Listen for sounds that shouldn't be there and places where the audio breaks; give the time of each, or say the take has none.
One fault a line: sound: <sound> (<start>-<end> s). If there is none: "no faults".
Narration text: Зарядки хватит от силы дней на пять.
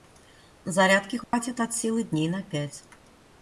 sound: dropout (1.2-1.3 s)